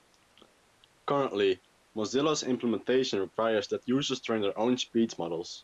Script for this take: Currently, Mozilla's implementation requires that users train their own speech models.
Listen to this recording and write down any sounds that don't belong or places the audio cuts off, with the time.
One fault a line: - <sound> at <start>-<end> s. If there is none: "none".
none